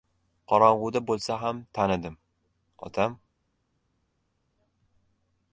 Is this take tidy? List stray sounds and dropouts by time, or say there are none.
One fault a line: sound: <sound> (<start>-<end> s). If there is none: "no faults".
no faults